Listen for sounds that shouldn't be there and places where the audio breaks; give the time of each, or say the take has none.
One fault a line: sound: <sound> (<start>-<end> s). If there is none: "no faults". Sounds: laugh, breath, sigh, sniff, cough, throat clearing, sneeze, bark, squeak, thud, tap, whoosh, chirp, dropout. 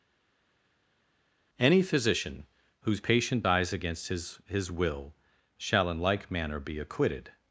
no faults